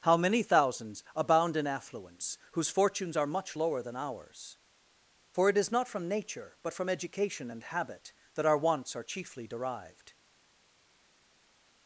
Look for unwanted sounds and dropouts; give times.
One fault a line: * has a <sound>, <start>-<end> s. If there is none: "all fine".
all fine